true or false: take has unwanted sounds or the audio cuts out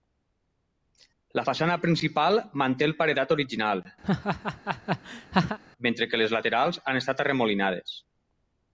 true